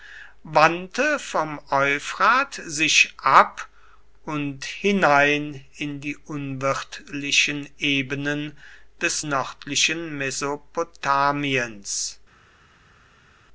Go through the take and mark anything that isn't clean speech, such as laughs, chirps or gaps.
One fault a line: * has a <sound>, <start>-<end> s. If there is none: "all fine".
all fine